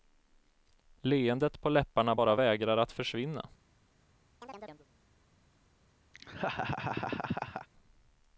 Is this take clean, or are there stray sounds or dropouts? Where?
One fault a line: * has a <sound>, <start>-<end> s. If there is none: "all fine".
* has a chirp, 4.4-4.9 s
* has a laugh, 6.1-7.7 s